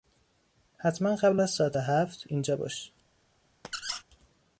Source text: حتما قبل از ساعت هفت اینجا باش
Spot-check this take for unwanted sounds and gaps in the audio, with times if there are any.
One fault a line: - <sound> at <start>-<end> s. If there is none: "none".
- squeak at 3.6-4.0 s